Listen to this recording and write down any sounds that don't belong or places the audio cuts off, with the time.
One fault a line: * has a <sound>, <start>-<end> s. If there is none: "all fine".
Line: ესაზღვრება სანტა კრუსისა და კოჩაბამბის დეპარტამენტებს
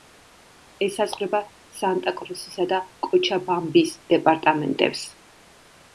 all fine